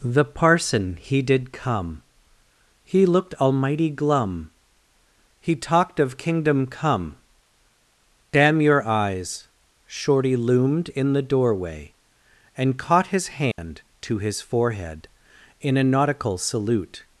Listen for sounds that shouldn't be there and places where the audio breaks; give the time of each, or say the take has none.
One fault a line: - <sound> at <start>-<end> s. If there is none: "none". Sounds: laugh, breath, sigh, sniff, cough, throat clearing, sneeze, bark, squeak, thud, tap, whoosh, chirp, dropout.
- dropout at 13.5-13.6 s